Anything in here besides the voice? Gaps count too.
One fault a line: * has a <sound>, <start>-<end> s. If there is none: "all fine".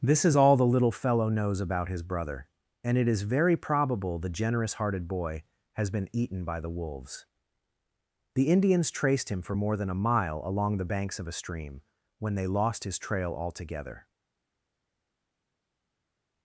all fine